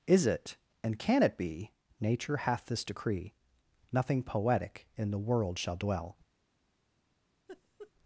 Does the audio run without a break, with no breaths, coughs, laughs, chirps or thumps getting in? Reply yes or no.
no